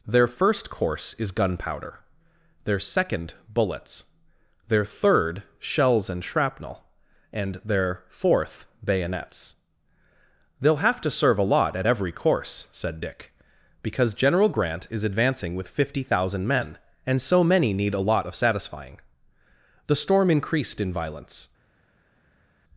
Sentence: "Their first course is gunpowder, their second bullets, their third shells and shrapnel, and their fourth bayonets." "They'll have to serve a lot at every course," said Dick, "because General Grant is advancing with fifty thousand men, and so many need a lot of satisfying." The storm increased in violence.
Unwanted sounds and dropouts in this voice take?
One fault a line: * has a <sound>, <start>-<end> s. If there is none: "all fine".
all fine